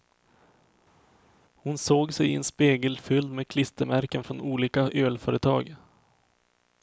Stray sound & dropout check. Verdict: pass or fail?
pass